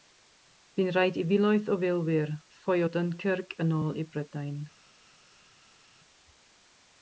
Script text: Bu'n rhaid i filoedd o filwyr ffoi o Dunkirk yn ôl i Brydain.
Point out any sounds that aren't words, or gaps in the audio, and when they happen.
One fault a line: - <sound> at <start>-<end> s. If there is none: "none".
none